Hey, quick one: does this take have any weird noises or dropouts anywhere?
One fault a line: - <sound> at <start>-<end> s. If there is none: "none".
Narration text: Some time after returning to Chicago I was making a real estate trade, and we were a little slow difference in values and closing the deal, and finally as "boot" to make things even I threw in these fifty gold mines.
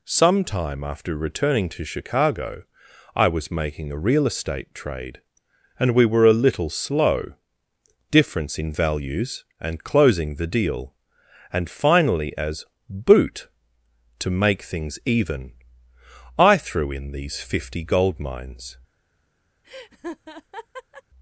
- laugh at 19.6-21.0 s